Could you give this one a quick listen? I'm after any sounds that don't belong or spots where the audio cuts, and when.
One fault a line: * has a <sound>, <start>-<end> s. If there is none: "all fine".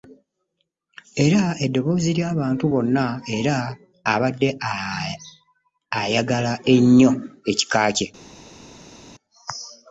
all fine